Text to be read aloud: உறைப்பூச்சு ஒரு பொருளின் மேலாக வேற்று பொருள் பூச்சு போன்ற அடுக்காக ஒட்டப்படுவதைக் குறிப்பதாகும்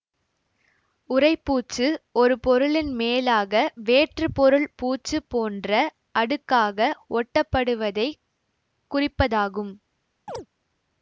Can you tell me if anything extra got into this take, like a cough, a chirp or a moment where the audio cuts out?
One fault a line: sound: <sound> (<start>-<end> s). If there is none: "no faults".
sound: chirp (10.3-10.5 s)